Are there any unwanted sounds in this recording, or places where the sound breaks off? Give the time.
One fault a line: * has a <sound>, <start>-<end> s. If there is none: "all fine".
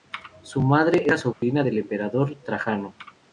* has a dropout, 1.3-1.4 s